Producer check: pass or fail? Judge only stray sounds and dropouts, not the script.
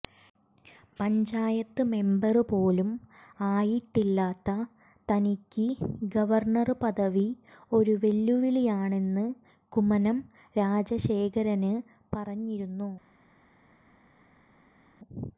pass